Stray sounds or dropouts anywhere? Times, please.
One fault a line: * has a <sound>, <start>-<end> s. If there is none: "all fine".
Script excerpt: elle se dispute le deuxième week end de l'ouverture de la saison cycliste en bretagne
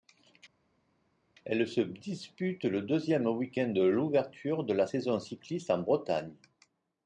all fine